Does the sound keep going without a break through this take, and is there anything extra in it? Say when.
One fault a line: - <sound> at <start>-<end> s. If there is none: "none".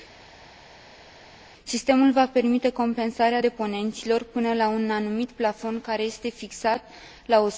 none